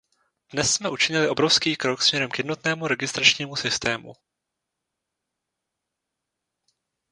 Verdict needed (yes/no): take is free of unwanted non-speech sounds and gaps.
yes